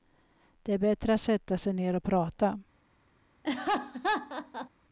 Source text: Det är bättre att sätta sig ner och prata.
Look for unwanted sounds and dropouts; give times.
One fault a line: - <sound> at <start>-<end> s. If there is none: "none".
- laugh at 3.4-4.7 s